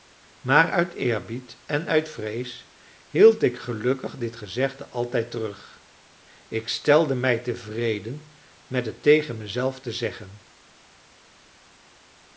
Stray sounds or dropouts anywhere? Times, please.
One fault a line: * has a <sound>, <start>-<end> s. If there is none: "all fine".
all fine